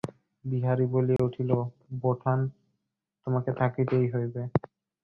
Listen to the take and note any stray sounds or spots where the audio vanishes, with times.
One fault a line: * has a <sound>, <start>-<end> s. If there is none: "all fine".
* has a dropout, 1.2-1.2 s